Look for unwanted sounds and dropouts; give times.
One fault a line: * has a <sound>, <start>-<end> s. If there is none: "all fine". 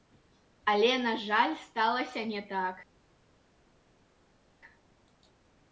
all fine